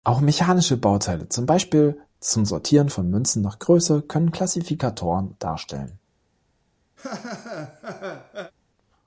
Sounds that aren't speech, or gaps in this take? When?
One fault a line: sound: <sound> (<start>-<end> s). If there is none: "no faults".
sound: laugh (7.0-8.5 s)